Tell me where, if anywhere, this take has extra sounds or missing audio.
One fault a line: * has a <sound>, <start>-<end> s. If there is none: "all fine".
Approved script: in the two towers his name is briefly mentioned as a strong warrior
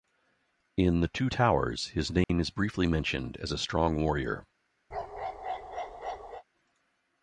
* has a dropout, 2.2-2.3 s
* has a bark, 4.9-6.4 s